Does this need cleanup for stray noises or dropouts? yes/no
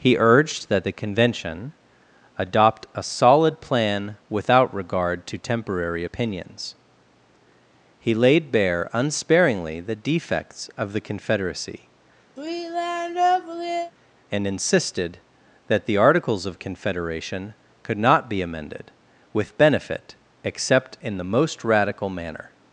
yes